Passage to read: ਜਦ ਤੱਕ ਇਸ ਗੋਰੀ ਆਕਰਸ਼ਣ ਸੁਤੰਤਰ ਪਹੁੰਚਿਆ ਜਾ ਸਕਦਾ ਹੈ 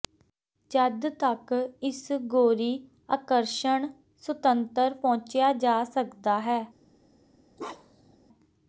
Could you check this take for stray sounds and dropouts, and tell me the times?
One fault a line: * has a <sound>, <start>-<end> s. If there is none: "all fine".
* has a bark, 7.6-8.2 s